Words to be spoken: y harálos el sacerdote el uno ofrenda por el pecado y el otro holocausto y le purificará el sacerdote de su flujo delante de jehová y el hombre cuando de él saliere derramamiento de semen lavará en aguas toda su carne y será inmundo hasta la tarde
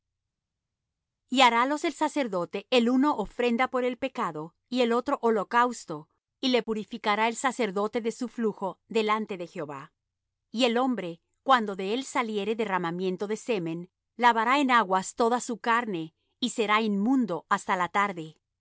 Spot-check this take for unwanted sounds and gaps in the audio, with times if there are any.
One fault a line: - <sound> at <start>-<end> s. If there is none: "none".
none